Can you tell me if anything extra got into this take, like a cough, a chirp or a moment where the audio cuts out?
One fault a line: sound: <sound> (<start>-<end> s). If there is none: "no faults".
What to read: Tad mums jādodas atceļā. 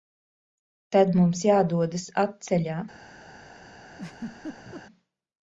sound: laugh (3.9-4.8 s)